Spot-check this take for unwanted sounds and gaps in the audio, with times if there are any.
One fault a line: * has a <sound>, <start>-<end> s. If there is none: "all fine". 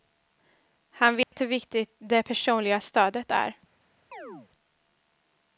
* has a dropout, 1.2-1.3 s
* has a chirp, 4.1-4.5 s